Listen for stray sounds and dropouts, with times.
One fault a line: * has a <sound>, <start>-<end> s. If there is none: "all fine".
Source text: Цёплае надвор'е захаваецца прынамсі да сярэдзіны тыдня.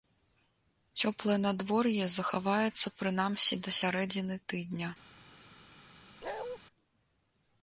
* has a bark, 6.2-6.6 s